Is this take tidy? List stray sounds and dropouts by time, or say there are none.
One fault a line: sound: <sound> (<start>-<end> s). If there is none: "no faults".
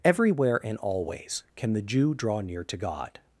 no faults